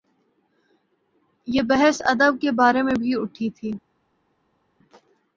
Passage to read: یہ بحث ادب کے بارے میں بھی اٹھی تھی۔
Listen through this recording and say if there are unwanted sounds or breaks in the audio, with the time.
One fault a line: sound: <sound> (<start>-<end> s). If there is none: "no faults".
no faults